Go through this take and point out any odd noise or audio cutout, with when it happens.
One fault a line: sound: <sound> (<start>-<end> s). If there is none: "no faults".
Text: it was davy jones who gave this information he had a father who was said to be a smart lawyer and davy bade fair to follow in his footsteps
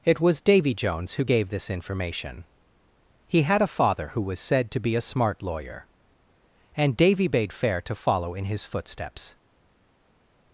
no faults